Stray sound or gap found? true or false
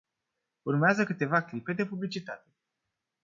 false